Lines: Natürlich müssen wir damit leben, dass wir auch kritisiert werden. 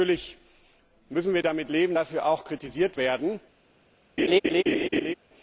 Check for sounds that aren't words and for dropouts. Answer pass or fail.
fail